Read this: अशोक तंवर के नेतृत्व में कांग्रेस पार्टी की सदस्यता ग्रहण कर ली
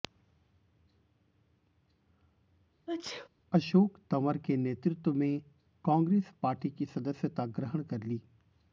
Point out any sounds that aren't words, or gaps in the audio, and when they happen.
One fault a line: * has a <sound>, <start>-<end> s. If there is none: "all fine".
* has a sneeze, 2.9-3.3 s